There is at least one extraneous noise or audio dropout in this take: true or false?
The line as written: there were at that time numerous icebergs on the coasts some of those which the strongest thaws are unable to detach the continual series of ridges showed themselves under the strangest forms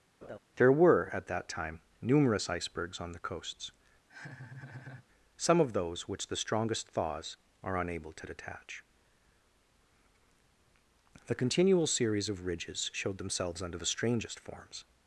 true